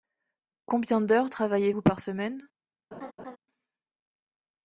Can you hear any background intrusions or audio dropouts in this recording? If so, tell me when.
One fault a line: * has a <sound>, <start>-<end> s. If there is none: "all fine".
* has a laugh, 2.9-3.4 s